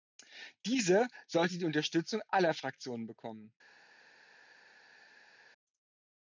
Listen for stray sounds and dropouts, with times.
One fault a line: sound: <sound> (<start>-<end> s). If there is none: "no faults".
no faults